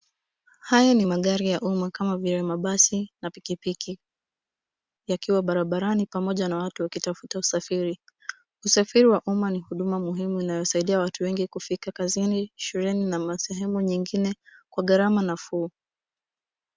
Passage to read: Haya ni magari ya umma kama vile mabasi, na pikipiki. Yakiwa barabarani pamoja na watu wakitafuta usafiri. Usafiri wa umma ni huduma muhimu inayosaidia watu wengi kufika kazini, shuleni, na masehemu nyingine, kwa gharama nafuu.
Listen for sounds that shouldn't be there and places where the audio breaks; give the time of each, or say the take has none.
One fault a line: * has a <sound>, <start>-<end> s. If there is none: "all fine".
all fine